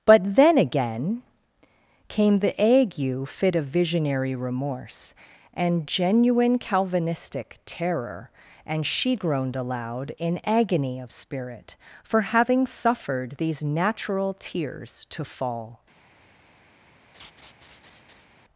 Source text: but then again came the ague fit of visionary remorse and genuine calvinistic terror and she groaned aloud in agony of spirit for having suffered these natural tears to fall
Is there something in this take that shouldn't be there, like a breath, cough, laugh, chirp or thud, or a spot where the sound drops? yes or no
yes